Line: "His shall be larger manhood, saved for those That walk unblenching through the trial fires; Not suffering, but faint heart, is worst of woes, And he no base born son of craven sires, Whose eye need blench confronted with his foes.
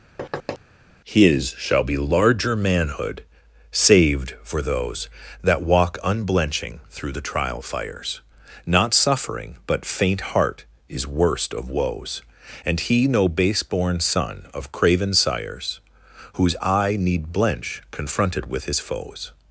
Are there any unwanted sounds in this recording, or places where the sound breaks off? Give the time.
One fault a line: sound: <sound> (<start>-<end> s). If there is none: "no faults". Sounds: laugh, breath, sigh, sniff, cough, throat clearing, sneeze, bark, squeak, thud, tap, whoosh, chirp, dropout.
sound: thud (0.2-0.6 s)